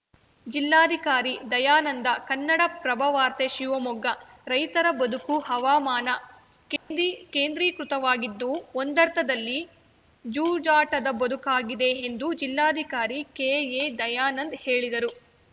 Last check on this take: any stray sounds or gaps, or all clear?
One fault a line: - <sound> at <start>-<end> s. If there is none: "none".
- dropout at 6.8-6.9 s